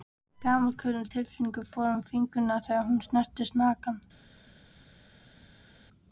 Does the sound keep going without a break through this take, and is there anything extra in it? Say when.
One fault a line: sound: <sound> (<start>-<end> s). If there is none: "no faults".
no faults